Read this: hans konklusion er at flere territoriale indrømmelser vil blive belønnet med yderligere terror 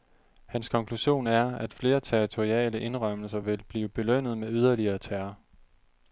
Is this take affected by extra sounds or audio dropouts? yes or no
no